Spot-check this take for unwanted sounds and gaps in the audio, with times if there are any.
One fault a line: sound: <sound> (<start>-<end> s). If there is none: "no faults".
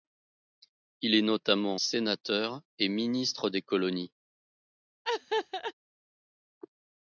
sound: laugh (5.0-5.7 s)